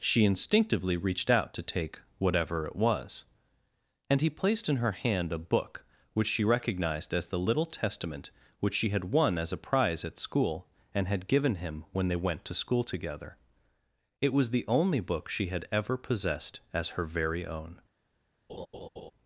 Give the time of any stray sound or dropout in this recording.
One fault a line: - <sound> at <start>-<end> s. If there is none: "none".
- laugh at 18.5-19.1 s